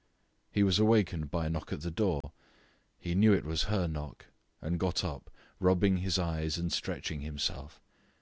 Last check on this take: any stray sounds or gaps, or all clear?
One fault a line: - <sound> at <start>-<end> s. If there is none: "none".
- dropout at 2.2-2.2 s